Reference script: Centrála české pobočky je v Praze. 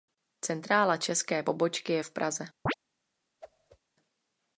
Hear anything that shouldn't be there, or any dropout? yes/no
yes